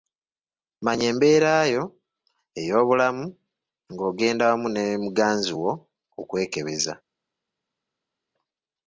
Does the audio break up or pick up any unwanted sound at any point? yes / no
no